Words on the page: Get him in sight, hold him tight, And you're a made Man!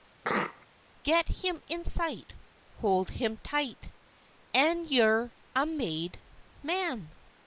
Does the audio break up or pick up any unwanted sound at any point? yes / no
yes